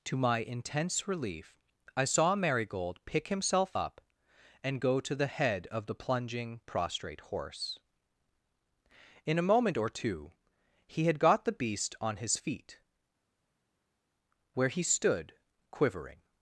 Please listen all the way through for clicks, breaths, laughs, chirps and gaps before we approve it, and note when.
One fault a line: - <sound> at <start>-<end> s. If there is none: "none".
none